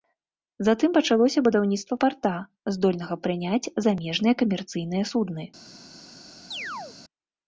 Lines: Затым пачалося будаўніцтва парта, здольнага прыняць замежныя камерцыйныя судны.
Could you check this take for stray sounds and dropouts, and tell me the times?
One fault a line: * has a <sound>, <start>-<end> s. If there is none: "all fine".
* has a chirp, 6.5-7.0 s